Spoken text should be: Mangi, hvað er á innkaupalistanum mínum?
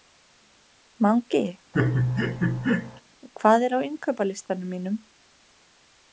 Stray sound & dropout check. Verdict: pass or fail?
fail